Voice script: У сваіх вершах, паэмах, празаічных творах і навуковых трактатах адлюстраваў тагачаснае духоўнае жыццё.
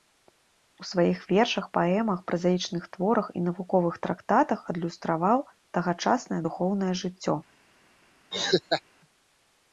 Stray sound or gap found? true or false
true